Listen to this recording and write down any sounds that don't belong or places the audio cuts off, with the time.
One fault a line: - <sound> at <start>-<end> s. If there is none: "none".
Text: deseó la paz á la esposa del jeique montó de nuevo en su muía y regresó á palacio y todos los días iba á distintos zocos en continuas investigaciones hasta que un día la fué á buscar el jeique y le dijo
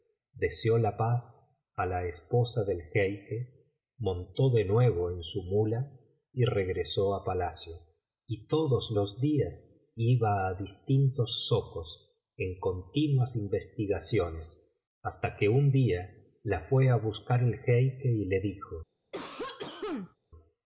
- cough at 19.1-20.2 s